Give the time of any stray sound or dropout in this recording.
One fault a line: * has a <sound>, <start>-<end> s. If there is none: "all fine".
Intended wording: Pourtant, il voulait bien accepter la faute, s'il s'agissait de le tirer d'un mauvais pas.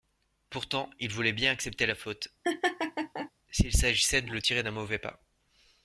* has a laugh, 2.4-3.3 s